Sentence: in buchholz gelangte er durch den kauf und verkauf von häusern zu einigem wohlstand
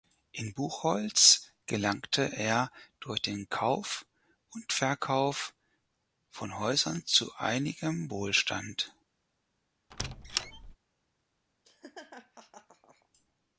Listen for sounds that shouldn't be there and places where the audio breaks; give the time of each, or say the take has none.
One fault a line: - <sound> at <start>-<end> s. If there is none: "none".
- squeak at 9.9-10.8 s
- laugh at 11.6-13.1 s